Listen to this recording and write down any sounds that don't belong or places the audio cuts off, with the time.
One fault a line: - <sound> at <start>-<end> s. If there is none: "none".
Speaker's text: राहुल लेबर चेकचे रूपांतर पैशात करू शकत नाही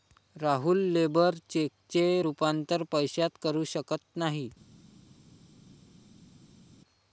none